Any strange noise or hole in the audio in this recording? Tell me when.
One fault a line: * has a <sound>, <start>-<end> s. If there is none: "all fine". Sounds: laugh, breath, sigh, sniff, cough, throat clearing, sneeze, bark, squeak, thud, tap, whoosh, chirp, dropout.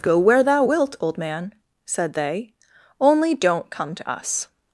all fine